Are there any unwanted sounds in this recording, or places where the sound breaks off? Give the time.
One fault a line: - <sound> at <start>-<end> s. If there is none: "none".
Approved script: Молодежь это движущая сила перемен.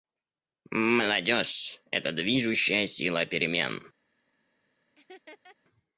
- laugh at 5.0-5.6 s